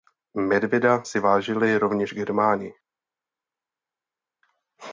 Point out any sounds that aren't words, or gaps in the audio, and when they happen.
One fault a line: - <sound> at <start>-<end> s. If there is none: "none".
none